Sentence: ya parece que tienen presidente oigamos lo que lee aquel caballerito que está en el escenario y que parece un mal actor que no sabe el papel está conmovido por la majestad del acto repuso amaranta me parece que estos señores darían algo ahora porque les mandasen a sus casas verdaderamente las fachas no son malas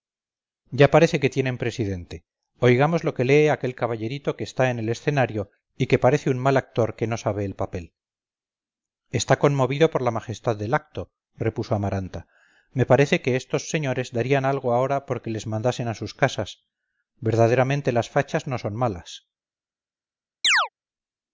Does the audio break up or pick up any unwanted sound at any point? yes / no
yes